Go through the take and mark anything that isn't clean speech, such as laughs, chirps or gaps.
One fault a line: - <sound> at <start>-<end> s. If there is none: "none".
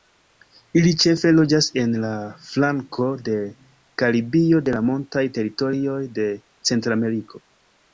none